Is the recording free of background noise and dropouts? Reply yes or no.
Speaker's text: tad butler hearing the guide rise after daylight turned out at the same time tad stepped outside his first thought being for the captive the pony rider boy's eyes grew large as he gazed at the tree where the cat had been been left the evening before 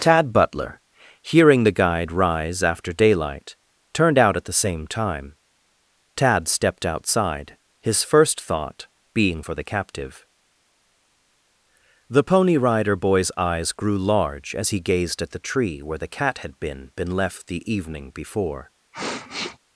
no